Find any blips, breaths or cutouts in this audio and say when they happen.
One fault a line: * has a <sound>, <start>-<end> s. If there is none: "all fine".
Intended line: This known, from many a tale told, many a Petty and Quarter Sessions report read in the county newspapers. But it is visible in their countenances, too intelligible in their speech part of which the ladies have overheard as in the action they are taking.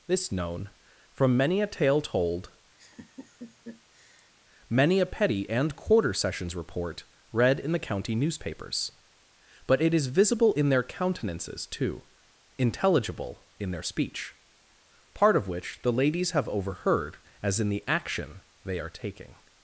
* has a laugh, 2.8-4.3 s